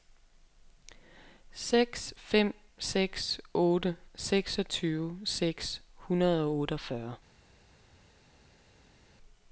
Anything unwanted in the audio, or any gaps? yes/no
no